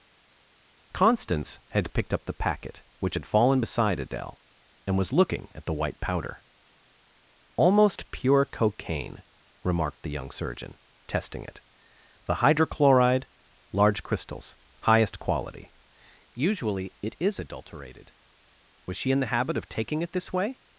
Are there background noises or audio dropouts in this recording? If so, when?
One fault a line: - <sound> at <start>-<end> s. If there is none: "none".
none